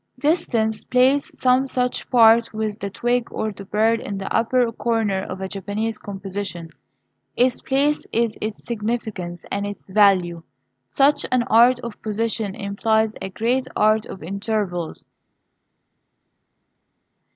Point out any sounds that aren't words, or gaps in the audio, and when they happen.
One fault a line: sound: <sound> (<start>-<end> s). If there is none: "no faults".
no faults